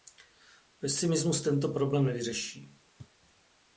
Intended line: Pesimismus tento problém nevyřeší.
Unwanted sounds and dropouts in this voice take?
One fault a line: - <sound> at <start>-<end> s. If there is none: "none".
none